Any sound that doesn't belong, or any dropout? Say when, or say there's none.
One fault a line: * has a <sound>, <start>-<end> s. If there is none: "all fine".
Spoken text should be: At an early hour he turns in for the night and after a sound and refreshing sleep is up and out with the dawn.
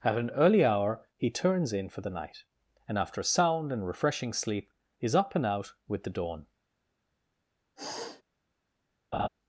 * has a sniff, 7.8-8.2 s
* has a laugh, 9.1-9.3 s